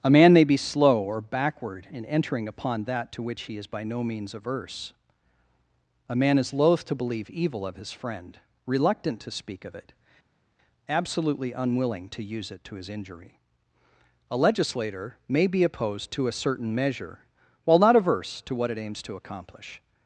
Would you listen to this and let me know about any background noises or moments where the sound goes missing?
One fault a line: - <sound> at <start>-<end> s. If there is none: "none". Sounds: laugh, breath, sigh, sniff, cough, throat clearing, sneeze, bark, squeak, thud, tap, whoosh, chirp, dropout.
none